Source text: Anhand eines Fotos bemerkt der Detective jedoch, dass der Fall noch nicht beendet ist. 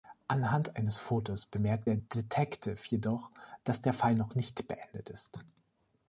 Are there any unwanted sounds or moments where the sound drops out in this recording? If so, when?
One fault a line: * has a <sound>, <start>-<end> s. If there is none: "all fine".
all fine